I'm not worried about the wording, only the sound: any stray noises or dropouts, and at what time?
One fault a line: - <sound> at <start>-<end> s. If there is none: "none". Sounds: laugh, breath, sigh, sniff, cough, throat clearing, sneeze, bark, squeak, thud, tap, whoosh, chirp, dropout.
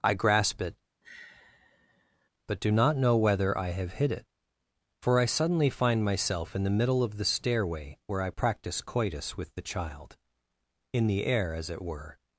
- sigh at 1.0-2.3 s